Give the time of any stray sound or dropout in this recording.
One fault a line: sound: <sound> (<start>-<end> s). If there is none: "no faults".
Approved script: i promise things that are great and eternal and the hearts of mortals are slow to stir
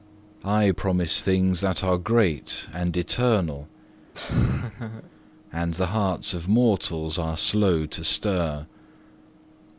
sound: laugh (4.1-5.1 s)